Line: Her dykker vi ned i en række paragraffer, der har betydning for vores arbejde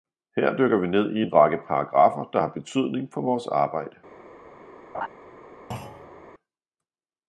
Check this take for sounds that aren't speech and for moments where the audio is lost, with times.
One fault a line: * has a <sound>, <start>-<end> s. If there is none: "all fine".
* has a laugh, 4.9-5.1 s
* has a thud, 5.7-6.3 s